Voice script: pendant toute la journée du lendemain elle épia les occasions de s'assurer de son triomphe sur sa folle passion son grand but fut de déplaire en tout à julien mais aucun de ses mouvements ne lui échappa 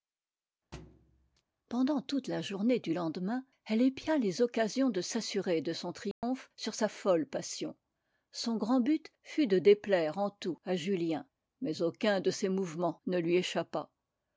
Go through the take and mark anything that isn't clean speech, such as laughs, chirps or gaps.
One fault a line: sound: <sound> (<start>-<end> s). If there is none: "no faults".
sound: thud (0.7-1.4 s)
sound: dropout (6.1-6.2 s)